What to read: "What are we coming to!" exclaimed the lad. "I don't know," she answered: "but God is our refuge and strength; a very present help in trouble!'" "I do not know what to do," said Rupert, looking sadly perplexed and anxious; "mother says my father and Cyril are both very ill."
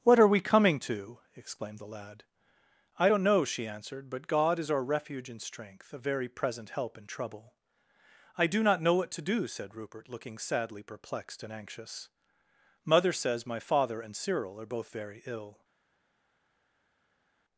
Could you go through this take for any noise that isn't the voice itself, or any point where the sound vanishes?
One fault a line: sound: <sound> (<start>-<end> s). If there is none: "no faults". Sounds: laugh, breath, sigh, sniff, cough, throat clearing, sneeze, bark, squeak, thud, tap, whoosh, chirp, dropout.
no faults